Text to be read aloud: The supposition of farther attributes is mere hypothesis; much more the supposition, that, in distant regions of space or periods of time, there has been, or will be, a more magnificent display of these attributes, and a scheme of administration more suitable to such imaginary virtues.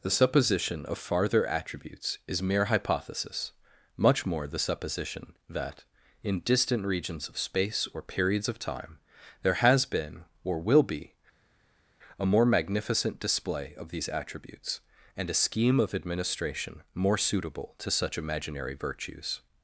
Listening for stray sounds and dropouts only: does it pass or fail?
pass